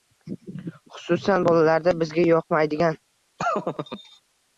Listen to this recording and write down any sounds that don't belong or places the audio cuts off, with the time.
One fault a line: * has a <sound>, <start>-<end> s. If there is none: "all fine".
* has a laugh, 3.4-4.2 s